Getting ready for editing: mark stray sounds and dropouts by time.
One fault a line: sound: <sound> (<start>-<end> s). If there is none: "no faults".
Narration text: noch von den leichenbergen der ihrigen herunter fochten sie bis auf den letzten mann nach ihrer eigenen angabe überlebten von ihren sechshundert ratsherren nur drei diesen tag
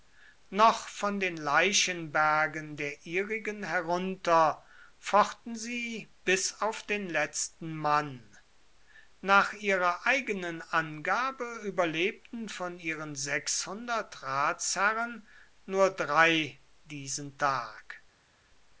no faults